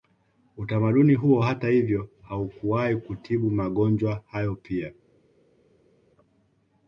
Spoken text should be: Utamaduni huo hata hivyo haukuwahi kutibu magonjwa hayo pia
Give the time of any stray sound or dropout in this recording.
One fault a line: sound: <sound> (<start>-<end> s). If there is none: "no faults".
no faults